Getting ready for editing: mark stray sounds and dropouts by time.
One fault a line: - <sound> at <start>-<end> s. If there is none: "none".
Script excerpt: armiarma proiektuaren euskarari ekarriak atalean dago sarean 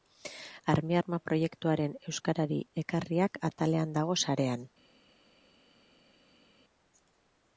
none